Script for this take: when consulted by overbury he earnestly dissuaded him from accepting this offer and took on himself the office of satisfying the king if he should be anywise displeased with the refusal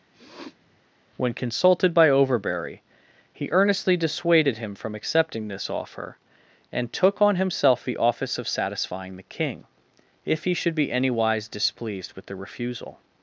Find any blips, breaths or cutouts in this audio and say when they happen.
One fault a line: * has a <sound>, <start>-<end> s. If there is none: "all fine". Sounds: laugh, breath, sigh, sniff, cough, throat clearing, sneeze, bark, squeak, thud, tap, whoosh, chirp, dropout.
* has a sniff, 0.1-0.8 s